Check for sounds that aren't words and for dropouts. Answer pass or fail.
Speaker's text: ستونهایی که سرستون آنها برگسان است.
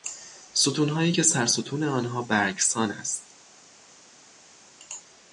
pass